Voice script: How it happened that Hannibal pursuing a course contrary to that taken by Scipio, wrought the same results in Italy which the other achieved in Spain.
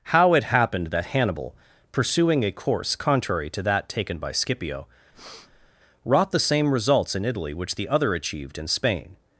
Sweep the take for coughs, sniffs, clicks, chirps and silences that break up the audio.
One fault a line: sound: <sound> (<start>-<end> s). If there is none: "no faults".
sound: breath (5.1-5.7 s)